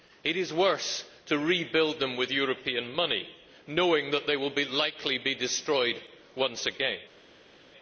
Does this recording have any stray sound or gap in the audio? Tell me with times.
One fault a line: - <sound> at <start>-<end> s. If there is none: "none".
none